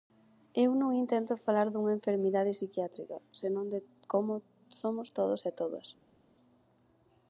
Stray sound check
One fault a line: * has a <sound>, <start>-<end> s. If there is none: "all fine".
all fine